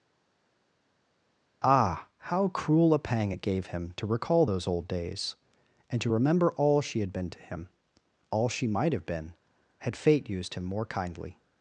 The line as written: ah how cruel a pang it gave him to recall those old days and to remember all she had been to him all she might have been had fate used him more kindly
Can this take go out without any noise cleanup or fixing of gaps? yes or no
yes